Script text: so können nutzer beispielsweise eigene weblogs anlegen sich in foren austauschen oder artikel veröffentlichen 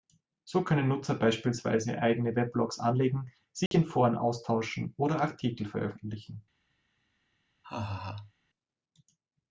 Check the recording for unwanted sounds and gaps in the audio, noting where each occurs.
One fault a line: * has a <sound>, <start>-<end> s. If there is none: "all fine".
* has a dropout, 3.7-3.7 s
* has a laugh, 7.6-8.3 s